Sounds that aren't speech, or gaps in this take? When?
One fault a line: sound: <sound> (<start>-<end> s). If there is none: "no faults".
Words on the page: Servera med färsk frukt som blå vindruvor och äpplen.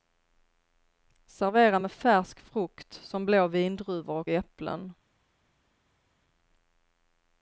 no faults